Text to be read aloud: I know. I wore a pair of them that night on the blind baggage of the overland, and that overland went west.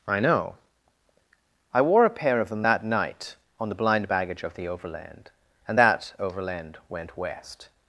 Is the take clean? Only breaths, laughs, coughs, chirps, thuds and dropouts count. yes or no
yes